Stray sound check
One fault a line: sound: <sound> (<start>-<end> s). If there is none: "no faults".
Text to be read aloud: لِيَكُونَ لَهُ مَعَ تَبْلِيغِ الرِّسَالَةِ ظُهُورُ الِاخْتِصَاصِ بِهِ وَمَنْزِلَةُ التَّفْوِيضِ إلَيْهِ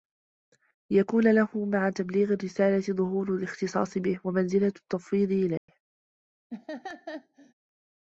sound: dropout (5.6-5.7 s)
sound: laugh (6.5-7.5 s)